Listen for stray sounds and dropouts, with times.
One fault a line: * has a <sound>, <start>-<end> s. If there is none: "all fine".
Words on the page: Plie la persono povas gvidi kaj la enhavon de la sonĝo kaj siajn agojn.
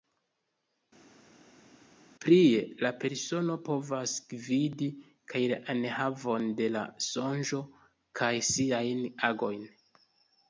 all fine